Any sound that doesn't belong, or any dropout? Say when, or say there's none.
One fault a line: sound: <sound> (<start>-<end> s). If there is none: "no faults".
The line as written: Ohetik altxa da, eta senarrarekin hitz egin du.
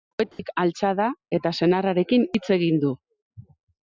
sound: dropout (0.3-0.4 s)